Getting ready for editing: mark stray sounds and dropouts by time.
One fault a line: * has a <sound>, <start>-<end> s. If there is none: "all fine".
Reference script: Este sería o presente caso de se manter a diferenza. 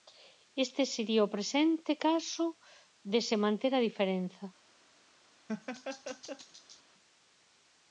* has a laugh, 5.5-6.8 s